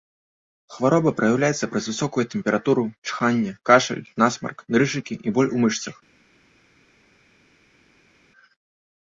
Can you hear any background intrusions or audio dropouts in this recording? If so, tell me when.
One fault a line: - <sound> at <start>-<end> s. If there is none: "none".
none